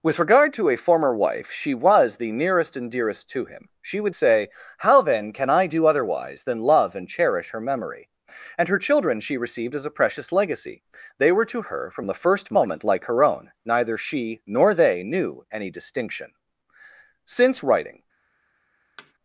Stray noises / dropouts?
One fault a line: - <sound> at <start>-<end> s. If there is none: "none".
- thud at 19.0-19.1 s